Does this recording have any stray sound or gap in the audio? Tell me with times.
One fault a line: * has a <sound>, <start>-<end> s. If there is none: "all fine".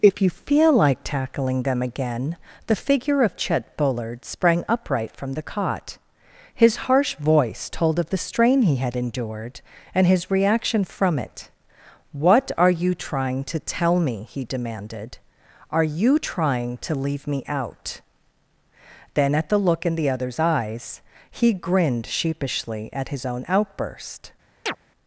* has a chirp, 24.7-24.8 s